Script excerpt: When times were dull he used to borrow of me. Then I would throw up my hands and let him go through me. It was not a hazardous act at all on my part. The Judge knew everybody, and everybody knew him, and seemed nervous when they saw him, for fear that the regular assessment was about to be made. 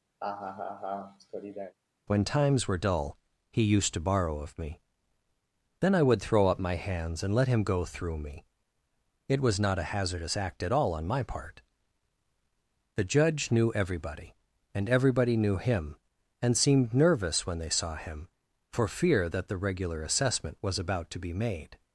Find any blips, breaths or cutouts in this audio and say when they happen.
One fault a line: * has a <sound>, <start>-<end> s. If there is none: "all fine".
* has a laugh, 0.2-1.8 s